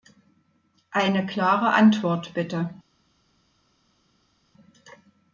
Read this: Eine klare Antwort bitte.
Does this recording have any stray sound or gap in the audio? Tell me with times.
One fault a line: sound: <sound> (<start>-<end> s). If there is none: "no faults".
no faults